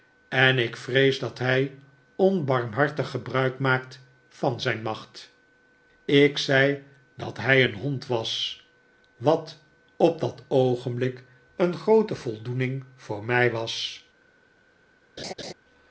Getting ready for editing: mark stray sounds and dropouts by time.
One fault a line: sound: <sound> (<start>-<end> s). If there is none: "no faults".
sound: laugh (15.2-15.5 s)